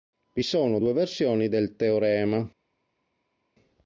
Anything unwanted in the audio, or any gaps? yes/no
no